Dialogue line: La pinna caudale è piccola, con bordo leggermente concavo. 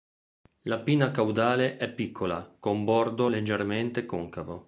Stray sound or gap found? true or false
false